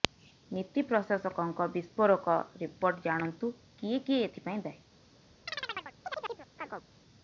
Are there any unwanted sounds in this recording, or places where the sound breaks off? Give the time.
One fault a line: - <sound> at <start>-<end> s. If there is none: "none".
- chirp at 5.5-6.9 s